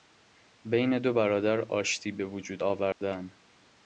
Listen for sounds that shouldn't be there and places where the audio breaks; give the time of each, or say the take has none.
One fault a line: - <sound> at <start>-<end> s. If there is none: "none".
- dropout at 2.9-3.0 s